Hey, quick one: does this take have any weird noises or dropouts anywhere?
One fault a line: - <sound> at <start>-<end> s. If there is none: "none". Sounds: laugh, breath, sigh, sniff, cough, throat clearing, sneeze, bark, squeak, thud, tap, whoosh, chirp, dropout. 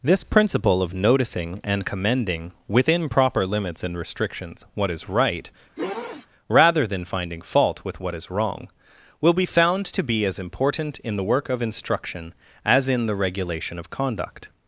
- sniff at 5.8-6.3 s